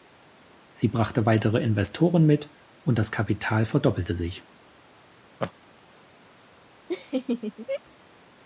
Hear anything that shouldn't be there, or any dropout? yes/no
yes